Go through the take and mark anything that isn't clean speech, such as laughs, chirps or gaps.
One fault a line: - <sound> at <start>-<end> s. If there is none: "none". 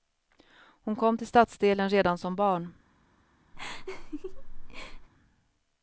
- laugh at 3.5-5.1 s